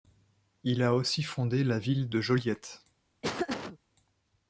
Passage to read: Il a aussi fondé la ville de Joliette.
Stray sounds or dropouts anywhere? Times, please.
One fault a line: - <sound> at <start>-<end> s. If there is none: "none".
- laugh at 3.2-3.8 s